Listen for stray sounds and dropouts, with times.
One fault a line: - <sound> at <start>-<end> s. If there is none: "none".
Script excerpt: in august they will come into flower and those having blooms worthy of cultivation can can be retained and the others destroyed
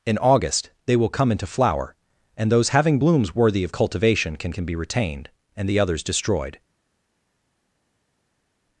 none